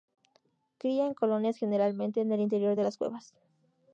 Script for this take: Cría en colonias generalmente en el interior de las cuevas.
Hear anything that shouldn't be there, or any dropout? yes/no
no